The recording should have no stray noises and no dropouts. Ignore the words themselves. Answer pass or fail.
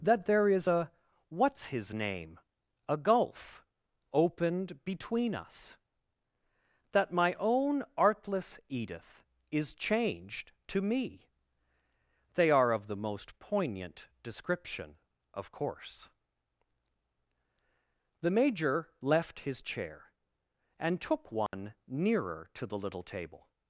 fail